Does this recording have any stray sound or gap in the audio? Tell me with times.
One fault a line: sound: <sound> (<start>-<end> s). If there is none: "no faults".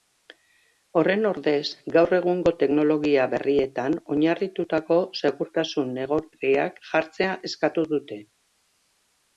no faults